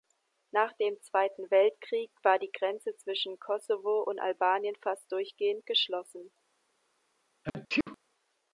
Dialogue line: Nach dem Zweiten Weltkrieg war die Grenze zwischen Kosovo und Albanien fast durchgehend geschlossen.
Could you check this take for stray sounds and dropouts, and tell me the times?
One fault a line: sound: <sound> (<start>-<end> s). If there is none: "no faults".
sound: sneeze (7.4-8.0 s)